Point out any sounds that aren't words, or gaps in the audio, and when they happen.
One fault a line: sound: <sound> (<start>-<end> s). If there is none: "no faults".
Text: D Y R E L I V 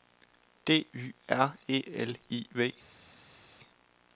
no faults